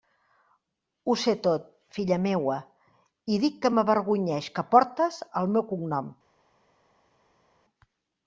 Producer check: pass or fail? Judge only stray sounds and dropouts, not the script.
pass